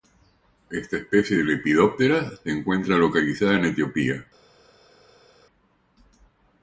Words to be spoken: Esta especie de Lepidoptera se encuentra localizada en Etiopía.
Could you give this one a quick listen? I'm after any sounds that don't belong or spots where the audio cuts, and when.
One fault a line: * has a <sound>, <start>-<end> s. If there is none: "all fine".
all fine